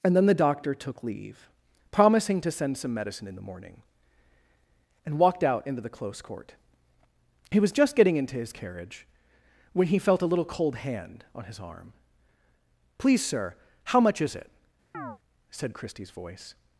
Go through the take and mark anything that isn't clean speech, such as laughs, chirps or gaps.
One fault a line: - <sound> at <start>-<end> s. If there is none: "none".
- chirp at 14.9-15.2 s